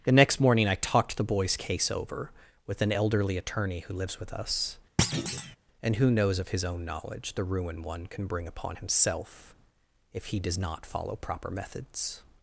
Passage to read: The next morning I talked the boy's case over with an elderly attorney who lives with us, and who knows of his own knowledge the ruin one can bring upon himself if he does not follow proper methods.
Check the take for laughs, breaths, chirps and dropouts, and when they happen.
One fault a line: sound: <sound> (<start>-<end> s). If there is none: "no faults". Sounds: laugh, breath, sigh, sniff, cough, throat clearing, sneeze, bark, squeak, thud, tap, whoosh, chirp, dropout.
sound: thud (5.0-5.6 s)